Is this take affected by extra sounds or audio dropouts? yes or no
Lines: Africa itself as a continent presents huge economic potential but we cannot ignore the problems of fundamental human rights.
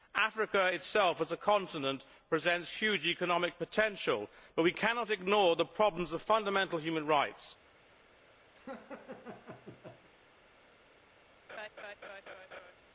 yes